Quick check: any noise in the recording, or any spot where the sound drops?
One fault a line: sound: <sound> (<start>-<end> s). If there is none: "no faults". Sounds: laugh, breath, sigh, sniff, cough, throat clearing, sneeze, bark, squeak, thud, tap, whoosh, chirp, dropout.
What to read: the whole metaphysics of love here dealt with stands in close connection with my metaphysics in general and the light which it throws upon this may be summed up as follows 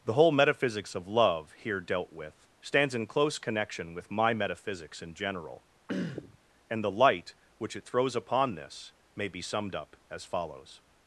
sound: throat clearing (5.9-6.4 s)